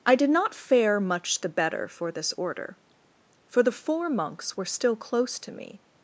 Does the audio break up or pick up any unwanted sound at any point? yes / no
no